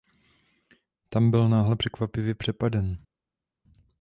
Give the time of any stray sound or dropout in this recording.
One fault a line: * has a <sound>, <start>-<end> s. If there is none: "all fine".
all fine